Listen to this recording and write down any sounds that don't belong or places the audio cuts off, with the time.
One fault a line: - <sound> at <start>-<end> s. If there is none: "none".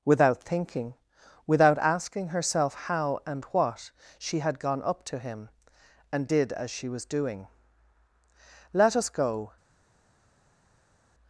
none